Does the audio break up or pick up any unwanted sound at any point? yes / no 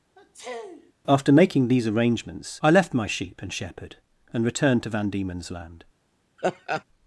yes